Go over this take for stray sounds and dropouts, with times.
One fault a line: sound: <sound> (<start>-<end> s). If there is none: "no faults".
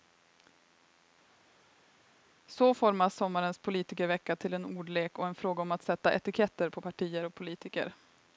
no faults